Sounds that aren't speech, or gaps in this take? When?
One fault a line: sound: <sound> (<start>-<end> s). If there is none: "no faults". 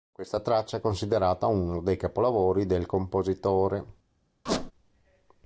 sound: squeak (4.5-4.7 s)